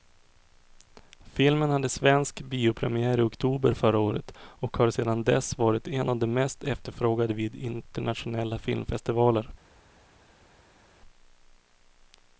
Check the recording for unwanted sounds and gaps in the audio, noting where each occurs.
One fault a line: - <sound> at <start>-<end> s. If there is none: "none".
none